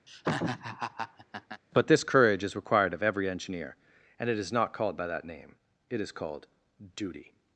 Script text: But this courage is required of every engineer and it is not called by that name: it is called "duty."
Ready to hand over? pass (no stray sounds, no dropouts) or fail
fail